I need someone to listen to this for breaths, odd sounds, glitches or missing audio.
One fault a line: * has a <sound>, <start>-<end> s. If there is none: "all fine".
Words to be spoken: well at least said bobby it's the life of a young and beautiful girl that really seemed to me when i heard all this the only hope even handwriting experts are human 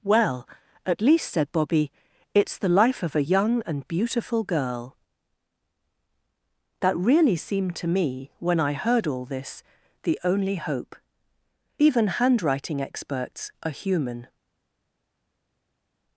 all fine